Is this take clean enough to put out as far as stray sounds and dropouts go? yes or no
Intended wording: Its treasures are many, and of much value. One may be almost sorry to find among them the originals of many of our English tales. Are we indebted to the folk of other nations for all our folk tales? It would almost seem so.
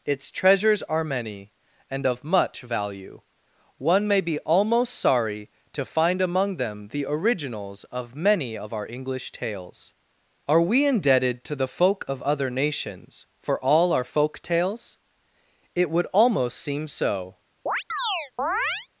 no